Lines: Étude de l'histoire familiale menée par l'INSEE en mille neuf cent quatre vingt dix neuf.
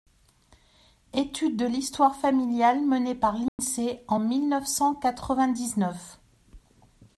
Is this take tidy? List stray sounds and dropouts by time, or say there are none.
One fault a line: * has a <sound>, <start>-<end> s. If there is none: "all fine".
* has a dropout, 3.5-3.6 s